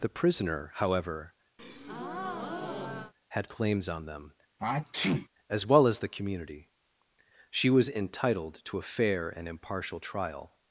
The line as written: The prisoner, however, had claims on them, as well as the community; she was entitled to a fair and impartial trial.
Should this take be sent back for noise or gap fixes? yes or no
yes